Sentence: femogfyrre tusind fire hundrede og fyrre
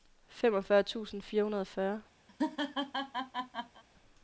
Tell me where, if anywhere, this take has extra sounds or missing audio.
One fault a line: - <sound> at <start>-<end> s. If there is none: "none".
- laugh at 2.3-3.8 s